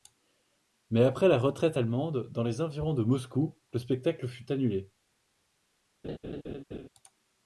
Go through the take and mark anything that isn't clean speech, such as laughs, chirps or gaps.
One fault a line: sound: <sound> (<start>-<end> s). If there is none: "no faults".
sound: laugh (6.0-6.9 s)